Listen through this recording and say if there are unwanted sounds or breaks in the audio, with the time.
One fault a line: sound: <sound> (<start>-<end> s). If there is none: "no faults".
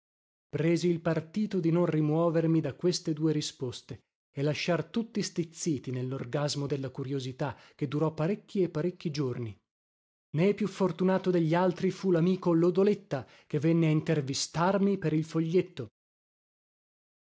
no faults